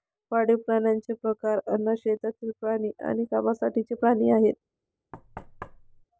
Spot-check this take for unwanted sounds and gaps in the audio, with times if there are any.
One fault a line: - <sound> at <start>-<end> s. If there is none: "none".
- thud at 5.1-6.0 s